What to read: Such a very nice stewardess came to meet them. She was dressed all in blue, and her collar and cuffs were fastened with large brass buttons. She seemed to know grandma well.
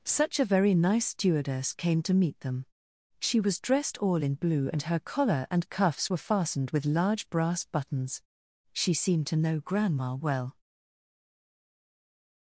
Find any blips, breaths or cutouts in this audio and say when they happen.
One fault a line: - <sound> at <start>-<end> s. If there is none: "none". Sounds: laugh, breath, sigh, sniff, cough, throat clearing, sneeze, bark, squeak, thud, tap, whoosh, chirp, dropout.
none